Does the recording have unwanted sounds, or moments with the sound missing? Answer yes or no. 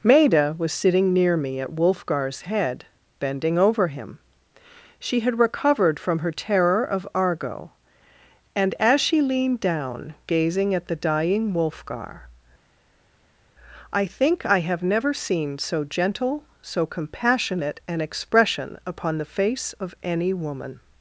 no